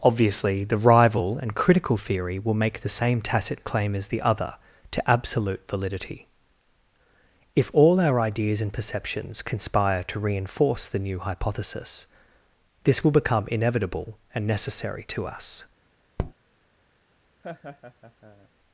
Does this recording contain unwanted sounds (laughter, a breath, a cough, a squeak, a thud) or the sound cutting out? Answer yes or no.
yes